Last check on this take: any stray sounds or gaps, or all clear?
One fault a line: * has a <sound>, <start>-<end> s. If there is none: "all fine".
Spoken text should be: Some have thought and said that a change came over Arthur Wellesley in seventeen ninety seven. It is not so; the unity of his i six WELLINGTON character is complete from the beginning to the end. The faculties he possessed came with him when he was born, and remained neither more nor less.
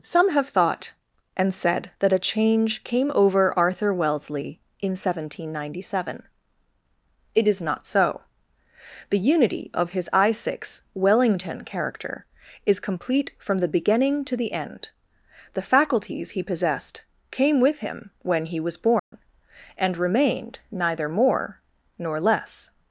* has a dropout, 19.0-19.1 s